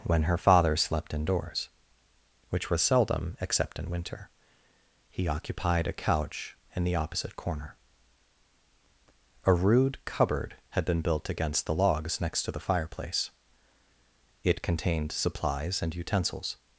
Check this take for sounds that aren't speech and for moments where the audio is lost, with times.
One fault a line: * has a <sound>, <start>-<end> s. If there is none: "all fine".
all fine